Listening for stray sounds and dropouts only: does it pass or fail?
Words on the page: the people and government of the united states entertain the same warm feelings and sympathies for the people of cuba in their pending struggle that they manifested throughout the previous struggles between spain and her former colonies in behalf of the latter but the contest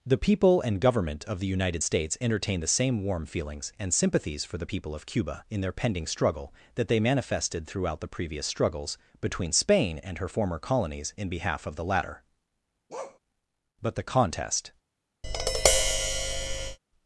fail